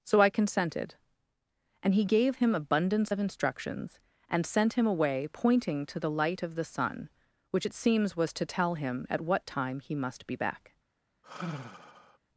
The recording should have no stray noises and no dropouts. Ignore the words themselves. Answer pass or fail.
fail